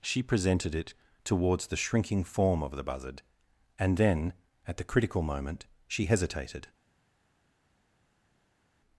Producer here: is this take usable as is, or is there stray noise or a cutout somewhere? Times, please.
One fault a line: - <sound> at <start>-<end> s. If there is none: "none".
none